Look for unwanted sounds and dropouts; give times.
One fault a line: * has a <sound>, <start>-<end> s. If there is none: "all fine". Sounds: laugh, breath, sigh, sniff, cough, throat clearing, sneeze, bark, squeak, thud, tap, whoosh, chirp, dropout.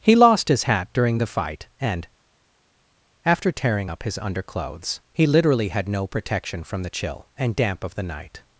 all fine